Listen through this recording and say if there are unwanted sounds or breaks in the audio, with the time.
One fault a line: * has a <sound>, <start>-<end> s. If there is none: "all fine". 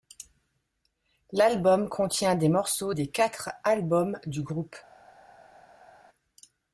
all fine